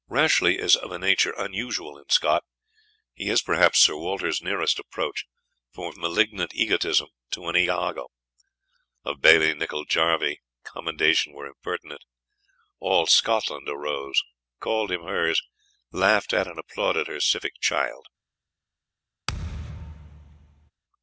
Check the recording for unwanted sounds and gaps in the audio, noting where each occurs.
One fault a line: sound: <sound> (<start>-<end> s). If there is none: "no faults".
sound: thud (19.3-20.7 s)